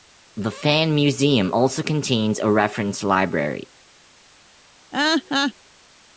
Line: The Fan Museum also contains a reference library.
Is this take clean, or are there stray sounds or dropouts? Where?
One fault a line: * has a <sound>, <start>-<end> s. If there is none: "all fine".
* has a laugh, 4.9-5.5 s